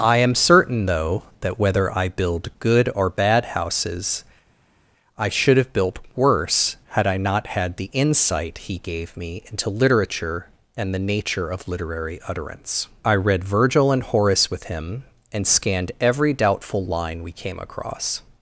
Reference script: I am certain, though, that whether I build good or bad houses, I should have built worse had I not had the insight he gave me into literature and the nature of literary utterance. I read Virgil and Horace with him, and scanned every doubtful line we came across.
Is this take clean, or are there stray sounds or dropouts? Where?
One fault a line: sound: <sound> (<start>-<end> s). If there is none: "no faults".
no faults